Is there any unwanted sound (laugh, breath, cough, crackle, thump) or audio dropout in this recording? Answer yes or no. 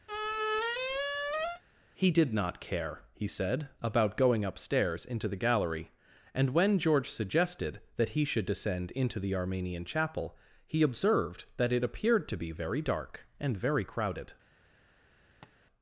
yes